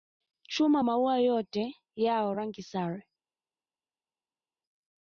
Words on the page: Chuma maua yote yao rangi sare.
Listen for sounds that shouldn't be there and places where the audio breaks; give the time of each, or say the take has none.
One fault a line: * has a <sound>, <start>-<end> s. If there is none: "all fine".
all fine